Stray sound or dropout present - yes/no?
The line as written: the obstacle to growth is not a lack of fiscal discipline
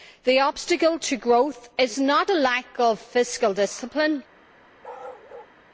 yes